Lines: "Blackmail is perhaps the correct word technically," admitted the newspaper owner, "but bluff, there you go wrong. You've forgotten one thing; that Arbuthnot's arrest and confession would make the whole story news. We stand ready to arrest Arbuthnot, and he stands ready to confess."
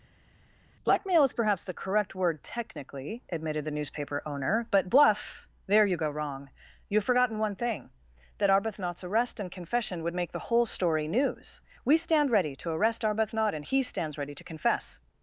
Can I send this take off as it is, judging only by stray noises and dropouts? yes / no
yes